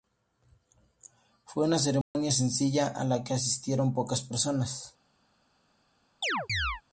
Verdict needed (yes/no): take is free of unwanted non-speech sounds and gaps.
no